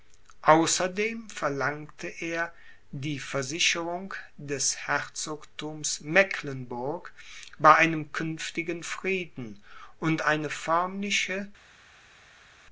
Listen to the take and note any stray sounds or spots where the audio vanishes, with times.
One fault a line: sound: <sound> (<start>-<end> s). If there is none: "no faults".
no faults